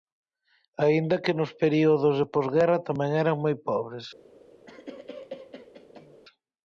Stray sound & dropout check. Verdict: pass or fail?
fail